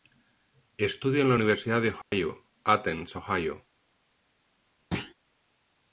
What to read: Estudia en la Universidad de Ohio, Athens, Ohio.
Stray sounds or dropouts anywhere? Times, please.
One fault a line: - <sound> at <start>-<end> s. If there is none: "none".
- dropout at 2.0-2.1 s
- thud at 4.9-5.1 s